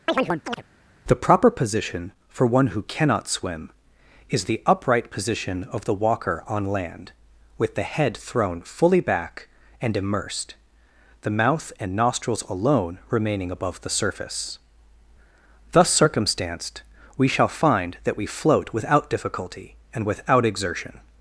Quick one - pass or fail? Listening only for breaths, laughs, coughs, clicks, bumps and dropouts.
fail